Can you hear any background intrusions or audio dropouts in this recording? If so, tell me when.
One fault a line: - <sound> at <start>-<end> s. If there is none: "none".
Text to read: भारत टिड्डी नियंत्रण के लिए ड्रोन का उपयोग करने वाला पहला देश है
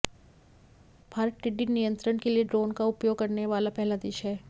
none